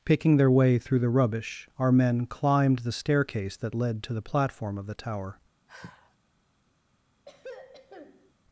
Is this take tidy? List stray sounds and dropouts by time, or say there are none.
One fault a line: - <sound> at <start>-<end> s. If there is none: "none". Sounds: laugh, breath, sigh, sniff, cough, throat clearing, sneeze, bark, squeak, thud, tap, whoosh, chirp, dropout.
- sigh at 5.7-6.2 s
- throat clearing at 7.3-8.3 s